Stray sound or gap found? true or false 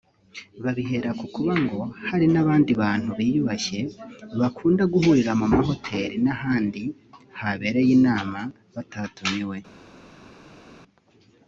false